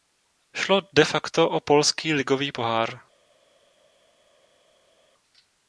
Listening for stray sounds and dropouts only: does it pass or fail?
pass